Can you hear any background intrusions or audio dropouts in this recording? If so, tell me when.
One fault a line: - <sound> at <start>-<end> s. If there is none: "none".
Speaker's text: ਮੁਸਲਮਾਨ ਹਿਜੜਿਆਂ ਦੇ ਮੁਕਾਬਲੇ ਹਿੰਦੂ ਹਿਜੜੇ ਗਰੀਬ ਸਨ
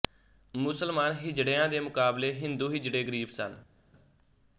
none